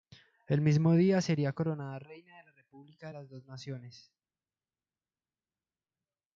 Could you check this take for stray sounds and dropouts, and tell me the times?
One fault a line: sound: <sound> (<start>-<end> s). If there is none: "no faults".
no faults